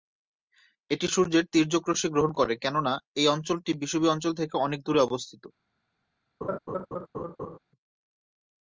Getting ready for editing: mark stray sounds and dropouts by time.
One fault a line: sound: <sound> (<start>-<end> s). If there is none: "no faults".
sound: laugh (6.4-7.6 s)